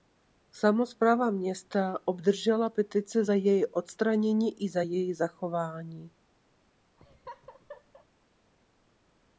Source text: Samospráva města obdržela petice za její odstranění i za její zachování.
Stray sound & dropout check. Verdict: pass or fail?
fail